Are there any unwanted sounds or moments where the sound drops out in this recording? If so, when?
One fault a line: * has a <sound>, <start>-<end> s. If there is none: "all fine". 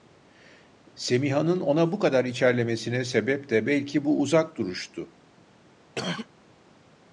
* has a throat clearing, 6.0-6.3 s